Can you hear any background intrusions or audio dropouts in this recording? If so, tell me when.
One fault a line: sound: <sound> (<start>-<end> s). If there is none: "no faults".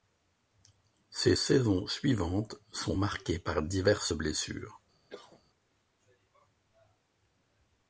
sound: cough (5.1-5.4 s)